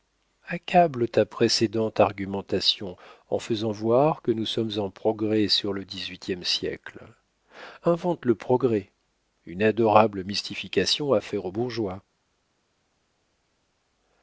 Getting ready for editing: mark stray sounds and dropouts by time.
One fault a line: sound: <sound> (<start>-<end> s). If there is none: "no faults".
no faults